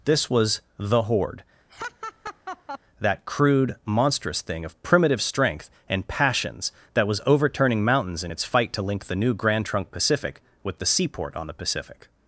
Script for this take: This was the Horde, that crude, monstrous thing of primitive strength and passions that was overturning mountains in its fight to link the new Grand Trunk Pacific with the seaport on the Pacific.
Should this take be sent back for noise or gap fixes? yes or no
yes